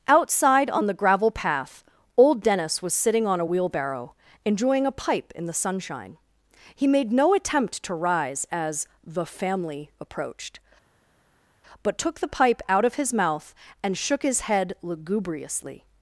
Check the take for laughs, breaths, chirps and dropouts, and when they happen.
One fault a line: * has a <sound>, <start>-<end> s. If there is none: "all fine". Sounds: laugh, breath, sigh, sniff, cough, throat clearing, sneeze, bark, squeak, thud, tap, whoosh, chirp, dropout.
all fine